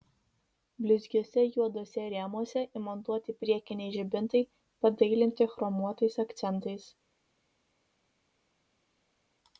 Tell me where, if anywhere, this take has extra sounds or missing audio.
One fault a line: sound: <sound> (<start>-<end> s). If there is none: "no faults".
no faults